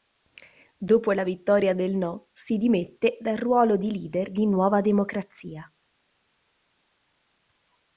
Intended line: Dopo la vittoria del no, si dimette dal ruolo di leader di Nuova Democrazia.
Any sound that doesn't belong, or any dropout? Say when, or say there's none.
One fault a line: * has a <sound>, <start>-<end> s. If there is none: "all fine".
all fine